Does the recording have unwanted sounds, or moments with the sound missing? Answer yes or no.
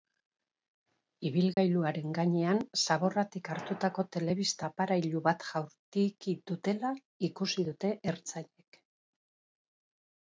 yes